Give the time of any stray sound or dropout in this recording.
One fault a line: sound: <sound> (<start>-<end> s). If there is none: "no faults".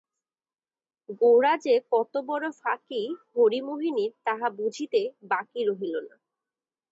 no faults